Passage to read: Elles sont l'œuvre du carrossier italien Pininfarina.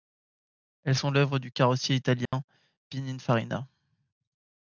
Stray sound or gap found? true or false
true